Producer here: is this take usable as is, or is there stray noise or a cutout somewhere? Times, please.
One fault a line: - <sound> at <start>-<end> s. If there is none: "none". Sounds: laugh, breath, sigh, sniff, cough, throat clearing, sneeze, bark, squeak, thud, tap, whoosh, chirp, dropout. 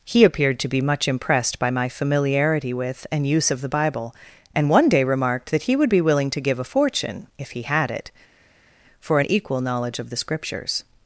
none